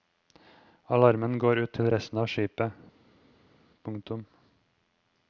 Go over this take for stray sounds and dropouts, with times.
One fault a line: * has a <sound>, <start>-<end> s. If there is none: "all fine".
all fine